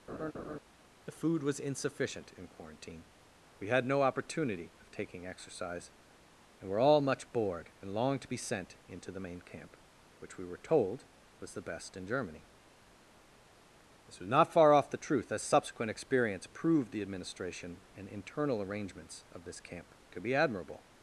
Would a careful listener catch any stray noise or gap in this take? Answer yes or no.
yes